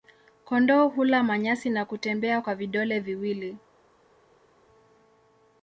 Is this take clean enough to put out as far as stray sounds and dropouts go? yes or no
yes